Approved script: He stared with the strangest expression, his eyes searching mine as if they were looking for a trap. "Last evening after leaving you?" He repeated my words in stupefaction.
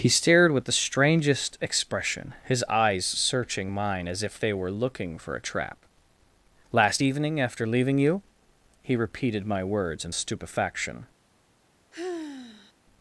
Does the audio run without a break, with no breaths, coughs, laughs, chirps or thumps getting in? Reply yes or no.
no